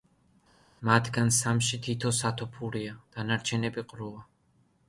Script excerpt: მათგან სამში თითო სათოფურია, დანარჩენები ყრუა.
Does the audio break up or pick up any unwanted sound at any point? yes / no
no